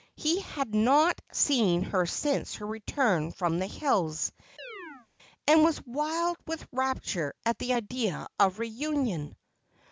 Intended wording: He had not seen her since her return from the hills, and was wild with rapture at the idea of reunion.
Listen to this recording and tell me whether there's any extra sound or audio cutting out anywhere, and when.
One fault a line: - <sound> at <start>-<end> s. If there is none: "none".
- chirp at 4.6-5.1 s